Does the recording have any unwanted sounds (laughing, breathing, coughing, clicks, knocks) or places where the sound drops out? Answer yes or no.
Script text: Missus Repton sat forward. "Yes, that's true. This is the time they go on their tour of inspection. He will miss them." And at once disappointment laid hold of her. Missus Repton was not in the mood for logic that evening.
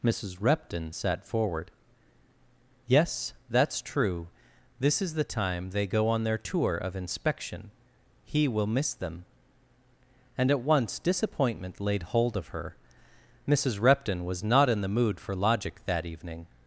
no